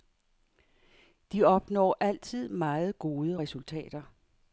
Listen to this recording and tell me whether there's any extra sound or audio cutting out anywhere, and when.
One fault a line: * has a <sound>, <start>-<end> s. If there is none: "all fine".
all fine